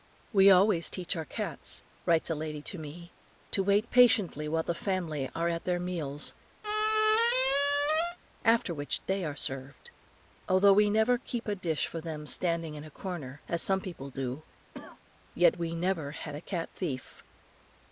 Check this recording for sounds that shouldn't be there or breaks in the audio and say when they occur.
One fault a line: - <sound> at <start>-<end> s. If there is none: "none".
- squeak at 6.6-8.2 s
- cough at 14.7-15.0 s